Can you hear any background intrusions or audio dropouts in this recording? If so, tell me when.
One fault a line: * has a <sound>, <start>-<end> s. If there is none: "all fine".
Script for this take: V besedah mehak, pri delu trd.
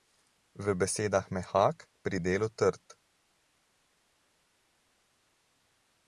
all fine